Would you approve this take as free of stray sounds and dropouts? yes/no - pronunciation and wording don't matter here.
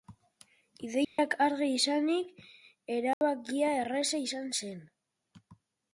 no